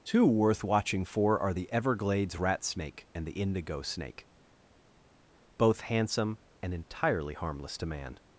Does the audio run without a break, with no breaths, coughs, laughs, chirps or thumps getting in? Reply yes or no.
yes